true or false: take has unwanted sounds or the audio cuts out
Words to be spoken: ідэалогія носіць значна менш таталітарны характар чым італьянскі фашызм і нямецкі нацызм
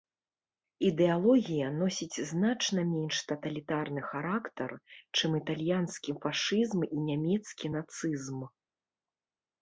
false